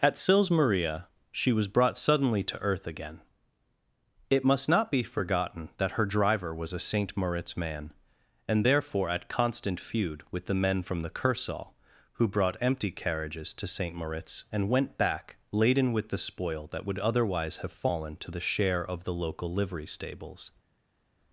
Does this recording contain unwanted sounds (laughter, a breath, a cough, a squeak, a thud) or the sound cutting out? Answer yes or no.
no